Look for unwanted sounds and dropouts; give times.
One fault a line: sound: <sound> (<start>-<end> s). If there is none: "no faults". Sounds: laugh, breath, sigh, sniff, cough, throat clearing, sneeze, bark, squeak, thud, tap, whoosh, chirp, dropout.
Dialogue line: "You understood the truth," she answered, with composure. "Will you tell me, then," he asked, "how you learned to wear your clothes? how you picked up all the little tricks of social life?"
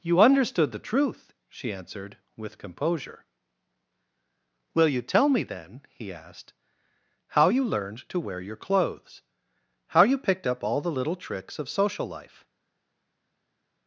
no faults